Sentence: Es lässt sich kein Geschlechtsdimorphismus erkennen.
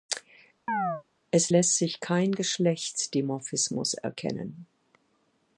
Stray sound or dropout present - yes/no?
yes